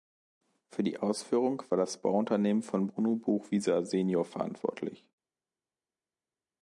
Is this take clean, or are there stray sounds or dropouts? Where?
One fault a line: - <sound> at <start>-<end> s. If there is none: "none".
none